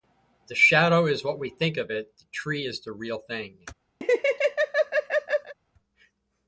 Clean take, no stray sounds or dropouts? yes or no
no